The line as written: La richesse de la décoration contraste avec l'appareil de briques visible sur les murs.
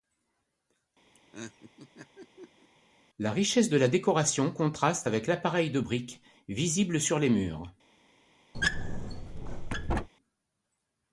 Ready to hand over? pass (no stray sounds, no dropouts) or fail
fail